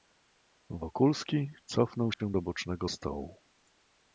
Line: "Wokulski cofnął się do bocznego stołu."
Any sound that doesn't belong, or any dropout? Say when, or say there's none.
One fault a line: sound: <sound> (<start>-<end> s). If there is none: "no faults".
sound: dropout (2.1-2.2 s)